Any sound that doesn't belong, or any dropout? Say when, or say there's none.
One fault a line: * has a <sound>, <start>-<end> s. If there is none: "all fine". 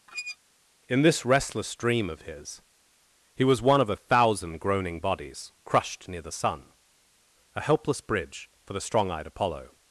* has a squeak, 0.1-0.4 s